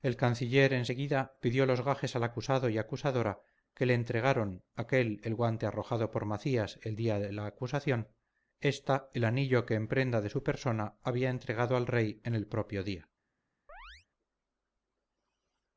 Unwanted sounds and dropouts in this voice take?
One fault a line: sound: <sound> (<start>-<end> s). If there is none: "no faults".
sound: chirp (13.7-14.1 s)